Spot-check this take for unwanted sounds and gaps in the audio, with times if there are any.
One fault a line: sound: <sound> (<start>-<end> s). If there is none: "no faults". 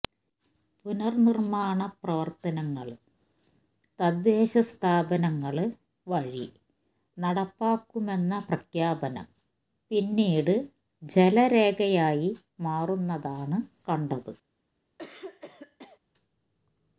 sound: throat clearing (15.0-16.0 s)